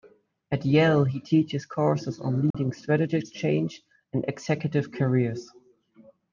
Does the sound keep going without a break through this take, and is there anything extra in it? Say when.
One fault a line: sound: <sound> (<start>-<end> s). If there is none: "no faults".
sound: dropout (2.5-2.5 s)